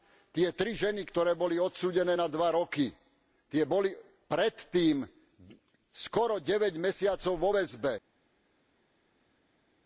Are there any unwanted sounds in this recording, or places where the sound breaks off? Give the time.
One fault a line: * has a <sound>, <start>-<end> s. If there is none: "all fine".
all fine